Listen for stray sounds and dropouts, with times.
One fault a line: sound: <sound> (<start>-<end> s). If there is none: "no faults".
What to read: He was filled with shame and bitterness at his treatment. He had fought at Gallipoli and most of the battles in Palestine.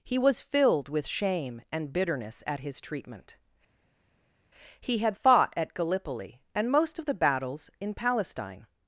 no faults